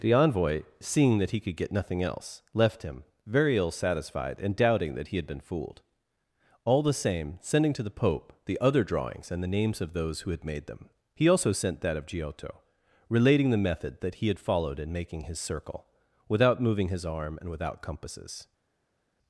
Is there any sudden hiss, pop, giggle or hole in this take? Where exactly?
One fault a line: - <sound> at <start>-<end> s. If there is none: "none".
none